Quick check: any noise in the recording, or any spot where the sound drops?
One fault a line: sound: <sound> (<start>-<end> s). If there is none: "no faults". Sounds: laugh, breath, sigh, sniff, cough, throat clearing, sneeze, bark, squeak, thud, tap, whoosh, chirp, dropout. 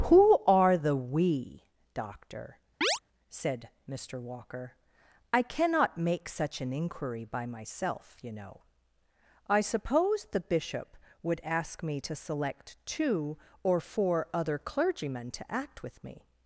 sound: chirp (2.8-3.0 s)